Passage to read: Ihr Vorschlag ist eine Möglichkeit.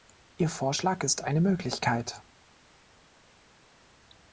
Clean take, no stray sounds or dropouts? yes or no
yes